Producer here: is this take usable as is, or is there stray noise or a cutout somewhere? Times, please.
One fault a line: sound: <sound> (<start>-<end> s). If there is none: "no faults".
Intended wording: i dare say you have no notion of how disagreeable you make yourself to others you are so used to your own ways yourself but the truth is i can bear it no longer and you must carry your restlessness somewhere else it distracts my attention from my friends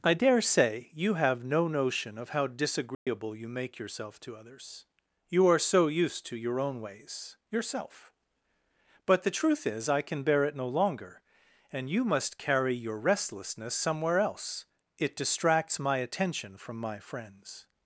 sound: dropout (2.9-3.1 s)